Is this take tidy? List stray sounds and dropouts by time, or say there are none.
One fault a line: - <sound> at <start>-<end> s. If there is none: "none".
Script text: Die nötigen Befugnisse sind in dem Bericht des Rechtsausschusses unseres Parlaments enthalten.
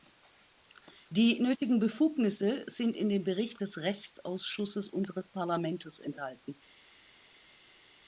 none